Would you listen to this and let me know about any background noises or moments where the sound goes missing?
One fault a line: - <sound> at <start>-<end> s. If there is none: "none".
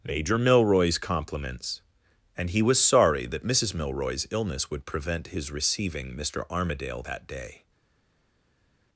none